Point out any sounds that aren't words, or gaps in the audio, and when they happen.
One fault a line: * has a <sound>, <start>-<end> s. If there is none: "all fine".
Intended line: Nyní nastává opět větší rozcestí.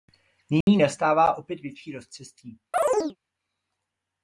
* has a dropout, 0.6-0.7 s
* has a chirp, 2.7-3.2 s